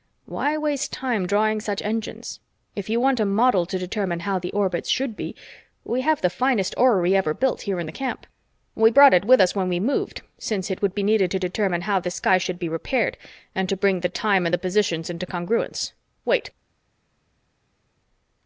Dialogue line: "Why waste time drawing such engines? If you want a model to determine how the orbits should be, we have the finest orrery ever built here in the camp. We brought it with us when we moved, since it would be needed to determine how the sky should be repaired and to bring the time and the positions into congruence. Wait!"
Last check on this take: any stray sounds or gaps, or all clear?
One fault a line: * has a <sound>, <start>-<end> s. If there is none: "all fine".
all fine